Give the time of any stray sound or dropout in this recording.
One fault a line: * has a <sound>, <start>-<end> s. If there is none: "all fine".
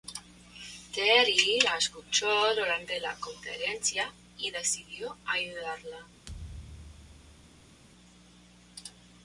* has a thud, 6.3-7.8 s